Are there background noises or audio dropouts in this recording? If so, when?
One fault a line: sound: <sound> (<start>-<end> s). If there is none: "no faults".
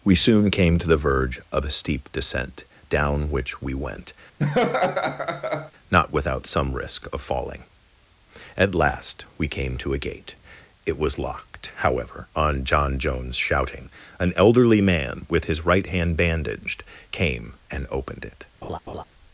sound: laugh (4.4-5.7 s)
sound: laugh (18.6-19.0 s)